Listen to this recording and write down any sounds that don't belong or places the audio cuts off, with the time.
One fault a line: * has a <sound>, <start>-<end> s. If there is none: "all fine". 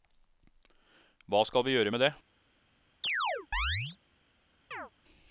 * has a chirp, 3.0-4.0 s
* has a chirp, 4.7-4.9 s